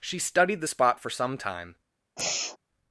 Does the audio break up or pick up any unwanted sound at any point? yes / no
yes